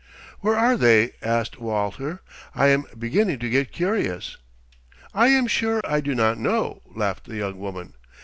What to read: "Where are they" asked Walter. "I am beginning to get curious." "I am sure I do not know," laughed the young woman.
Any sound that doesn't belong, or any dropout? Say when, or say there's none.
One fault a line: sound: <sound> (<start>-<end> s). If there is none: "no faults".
sound: dropout (5.8-5.8 s)